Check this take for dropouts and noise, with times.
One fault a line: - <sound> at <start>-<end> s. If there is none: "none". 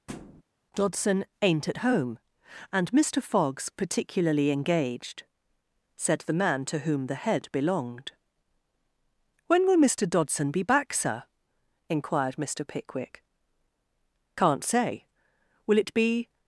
- thud at 0.1-0.4 s